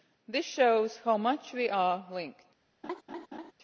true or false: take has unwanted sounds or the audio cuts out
true